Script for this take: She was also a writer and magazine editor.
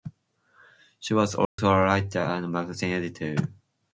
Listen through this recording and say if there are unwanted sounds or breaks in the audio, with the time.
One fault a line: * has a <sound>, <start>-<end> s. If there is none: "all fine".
* has a dropout, 1.4-1.6 s